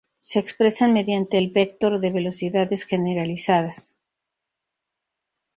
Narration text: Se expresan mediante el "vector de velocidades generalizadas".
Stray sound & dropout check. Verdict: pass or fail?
pass